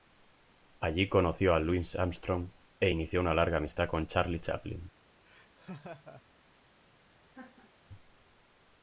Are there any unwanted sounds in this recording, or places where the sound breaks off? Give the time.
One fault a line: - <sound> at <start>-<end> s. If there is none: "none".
- laugh at 5.2-6.2 s
- laugh at 7.3-7.7 s